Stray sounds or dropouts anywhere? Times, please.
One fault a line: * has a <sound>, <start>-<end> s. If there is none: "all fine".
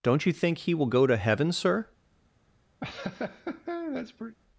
* has a laugh, 2.8-4.4 s